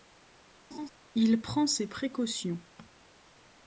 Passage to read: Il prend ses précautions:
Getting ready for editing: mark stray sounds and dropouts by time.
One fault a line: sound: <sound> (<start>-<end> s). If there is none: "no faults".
sound: laugh (0.7-0.9 s)